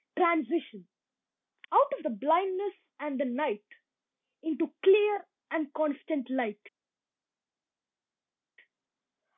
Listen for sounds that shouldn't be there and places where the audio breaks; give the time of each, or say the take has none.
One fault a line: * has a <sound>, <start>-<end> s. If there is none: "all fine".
all fine